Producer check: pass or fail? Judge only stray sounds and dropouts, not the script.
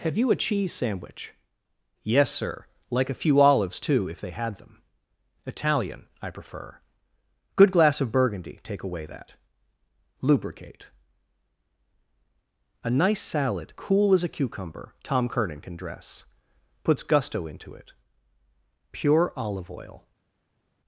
pass